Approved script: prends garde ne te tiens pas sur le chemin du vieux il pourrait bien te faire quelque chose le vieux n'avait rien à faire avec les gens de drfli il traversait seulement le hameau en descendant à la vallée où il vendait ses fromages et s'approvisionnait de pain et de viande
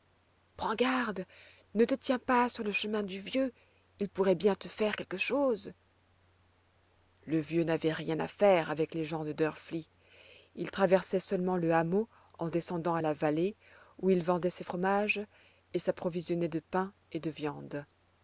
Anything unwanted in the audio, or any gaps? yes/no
no